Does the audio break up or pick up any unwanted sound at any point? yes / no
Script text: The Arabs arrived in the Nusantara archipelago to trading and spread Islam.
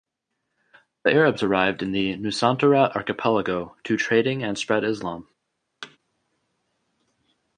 yes